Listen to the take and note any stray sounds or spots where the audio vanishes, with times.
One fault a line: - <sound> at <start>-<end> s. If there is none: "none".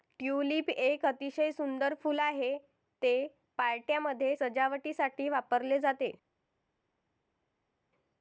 none